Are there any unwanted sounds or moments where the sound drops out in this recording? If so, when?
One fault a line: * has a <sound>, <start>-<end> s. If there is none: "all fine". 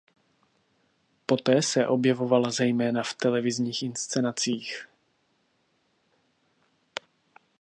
all fine